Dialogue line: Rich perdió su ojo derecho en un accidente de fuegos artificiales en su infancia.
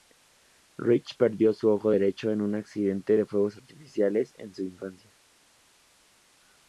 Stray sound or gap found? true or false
false